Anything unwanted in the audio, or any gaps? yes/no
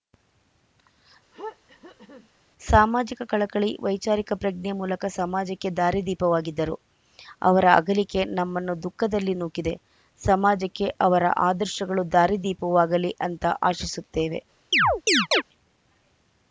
yes